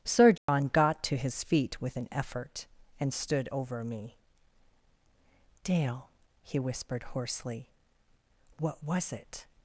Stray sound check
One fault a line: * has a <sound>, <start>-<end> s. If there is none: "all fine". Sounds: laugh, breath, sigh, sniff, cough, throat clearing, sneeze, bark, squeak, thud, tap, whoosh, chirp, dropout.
* has a dropout, 0.4-0.5 s